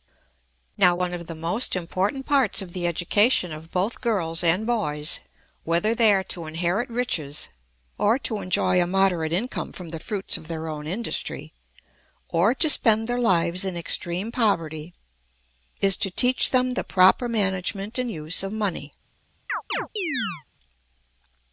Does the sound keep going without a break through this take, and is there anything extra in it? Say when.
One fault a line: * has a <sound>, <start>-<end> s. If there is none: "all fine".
* has a chirp, 19.5-20.4 s